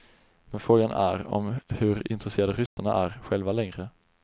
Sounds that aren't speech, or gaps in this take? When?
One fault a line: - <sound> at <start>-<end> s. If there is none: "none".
- dropout at 2.7-2.8 s